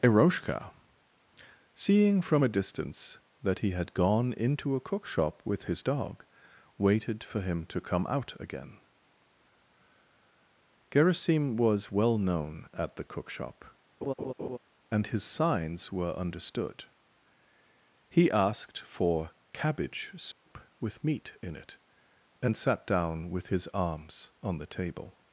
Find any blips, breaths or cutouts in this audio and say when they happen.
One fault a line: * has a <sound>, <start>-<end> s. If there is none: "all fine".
* has a laugh, 14.0-14.6 s
* has a dropout, 20.3-20.5 s